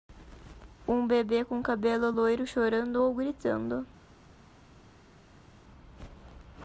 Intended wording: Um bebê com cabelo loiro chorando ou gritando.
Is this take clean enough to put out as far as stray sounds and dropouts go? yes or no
yes